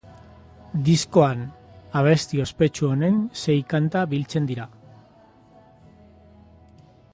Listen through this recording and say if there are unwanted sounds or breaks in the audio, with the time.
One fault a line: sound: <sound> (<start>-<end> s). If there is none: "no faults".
no faults